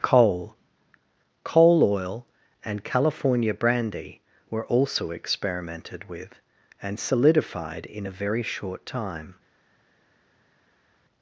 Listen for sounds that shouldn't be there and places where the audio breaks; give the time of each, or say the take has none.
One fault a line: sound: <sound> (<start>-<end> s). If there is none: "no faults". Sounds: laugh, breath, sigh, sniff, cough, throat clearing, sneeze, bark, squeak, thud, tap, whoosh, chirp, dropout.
no faults